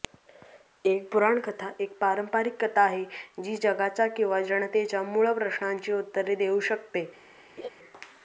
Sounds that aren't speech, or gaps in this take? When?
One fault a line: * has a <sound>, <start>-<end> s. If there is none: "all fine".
* has a laugh, 7.6-7.7 s